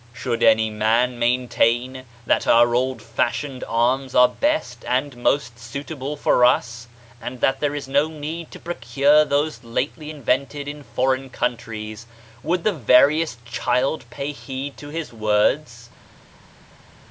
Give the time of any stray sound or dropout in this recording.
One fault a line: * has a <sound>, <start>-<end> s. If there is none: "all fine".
all fine